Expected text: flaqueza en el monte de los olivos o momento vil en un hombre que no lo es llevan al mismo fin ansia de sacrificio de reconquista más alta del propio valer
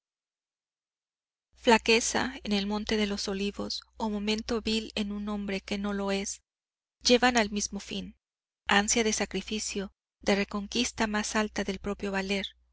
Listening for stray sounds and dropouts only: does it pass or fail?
pass